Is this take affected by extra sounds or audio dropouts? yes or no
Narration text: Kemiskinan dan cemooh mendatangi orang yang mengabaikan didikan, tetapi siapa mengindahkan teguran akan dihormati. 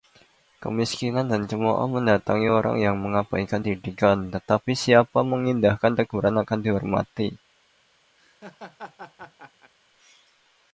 yes